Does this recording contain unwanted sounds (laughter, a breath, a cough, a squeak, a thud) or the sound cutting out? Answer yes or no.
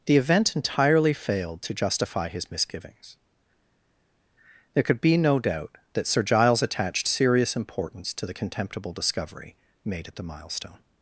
no